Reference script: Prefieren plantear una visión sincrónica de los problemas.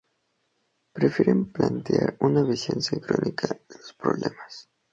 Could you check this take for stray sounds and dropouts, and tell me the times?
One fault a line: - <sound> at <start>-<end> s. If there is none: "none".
none